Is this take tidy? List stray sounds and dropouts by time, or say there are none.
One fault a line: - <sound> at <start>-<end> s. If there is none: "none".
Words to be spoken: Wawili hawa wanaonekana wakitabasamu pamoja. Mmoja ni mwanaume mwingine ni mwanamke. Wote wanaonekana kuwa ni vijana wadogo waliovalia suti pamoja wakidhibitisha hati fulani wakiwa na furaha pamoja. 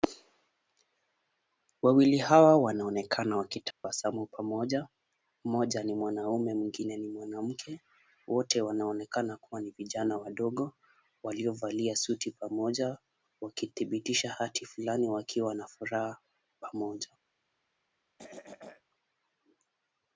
- dropout at 3.7-3.8 s
- throat clearing at 18.2-18.8 s